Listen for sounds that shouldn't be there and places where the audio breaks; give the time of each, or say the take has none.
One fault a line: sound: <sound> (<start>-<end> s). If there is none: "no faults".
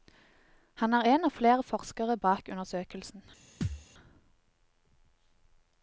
sound: thud (3.6-3.9 s)